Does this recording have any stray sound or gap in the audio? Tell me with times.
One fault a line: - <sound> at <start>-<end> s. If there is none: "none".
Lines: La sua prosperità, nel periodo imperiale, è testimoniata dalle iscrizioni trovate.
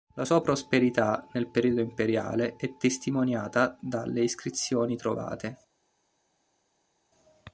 none